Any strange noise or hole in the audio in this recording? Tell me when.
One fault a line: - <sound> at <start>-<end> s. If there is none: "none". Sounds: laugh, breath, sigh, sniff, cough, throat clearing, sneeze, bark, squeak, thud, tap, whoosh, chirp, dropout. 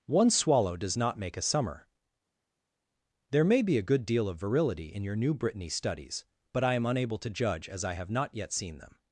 none